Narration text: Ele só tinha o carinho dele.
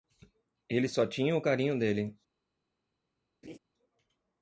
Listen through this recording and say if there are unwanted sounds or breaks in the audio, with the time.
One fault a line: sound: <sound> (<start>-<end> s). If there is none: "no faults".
sound: laugh (3.4-3.6 s)